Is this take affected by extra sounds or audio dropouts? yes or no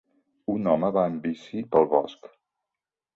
no